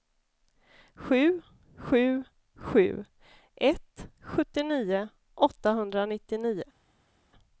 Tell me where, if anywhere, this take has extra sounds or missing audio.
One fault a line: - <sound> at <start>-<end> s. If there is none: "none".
none